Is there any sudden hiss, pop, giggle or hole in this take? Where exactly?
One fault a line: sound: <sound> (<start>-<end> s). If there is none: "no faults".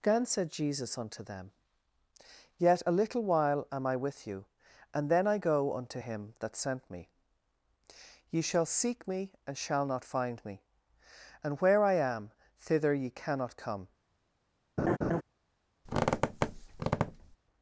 sound: laugh (14.8-15.2 s)
sound: squeak (15.9-17.4 s)